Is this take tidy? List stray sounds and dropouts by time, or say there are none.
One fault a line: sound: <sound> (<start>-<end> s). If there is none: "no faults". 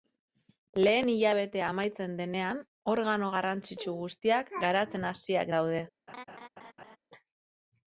sound: laugh (6.1-7.0 s)